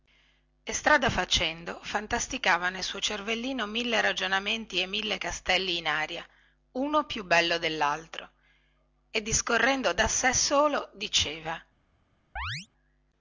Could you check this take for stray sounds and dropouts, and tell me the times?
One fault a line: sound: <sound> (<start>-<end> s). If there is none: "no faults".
sound: chirp (12.4-12.7 s)